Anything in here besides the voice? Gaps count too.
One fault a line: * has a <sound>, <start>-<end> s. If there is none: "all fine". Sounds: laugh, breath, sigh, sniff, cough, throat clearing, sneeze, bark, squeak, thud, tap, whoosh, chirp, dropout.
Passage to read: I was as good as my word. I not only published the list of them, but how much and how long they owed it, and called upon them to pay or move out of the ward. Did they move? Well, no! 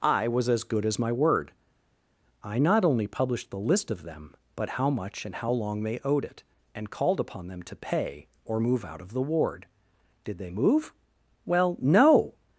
all fine